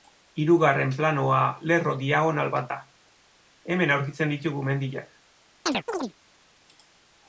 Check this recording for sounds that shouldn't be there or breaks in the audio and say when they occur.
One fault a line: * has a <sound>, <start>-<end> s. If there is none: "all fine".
* has a chirp, 5.7-6.1 s